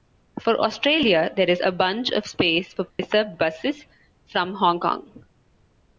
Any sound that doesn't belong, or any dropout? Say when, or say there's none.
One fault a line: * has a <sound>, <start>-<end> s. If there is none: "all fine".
* has a dropout, 2.9-3.0 s